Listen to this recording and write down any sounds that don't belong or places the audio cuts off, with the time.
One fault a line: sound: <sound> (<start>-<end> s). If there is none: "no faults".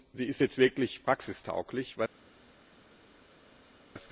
no faults